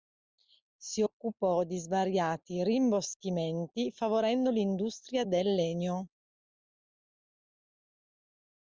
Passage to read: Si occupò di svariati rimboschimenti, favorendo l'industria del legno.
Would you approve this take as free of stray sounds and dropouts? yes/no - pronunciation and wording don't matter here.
yes